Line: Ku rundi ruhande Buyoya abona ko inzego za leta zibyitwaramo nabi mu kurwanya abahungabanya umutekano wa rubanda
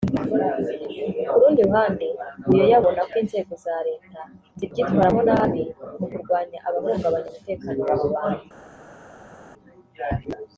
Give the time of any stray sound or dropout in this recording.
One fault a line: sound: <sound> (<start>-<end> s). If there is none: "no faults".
no faults